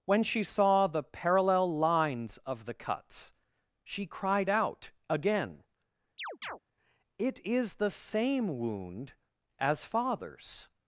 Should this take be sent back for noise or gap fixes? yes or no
yes